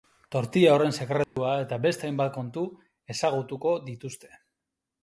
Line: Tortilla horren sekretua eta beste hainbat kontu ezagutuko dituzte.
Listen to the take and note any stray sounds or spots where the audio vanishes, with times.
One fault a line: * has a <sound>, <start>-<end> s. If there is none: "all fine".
* has a dropout, 1.2-1.4 s